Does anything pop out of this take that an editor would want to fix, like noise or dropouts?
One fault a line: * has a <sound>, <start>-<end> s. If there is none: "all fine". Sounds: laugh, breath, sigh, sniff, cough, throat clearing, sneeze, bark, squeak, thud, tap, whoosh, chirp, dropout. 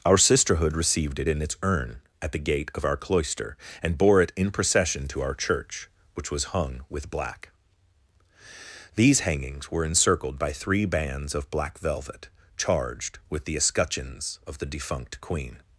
all fine